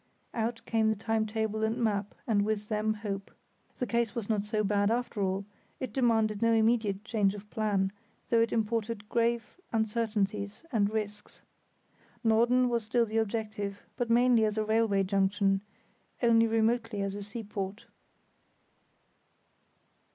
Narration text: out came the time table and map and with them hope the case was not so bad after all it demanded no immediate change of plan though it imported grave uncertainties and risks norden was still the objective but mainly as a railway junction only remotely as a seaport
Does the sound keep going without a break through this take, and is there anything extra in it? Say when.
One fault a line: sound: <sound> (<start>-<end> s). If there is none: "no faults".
no faults